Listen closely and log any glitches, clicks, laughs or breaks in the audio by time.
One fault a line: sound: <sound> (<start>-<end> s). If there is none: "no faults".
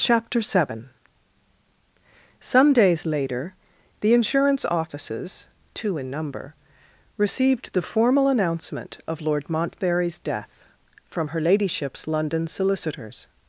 no faults